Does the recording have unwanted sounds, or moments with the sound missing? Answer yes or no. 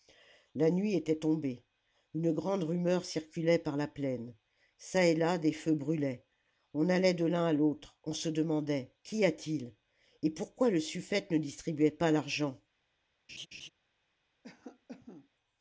yes